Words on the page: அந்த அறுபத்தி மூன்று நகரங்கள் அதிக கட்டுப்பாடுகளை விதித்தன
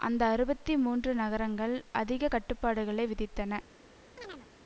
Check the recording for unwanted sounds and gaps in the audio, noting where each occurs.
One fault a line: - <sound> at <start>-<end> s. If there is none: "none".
- chirp at 4.2-4.5 s